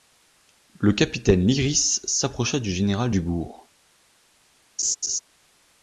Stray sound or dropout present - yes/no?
yes